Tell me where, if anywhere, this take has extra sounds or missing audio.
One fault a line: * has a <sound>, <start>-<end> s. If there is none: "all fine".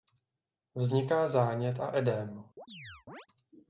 * has a chirp, 2.6-3.3 s